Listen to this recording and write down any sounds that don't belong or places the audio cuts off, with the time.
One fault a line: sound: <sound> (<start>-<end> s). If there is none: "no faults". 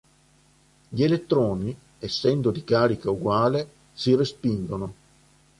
no faults